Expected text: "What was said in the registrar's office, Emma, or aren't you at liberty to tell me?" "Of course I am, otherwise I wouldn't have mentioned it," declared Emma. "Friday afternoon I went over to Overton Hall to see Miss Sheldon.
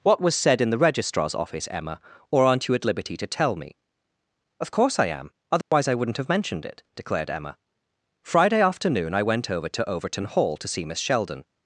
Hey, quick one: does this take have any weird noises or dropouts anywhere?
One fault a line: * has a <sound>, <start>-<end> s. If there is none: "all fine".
* has a dropout, 5.6-5.7 s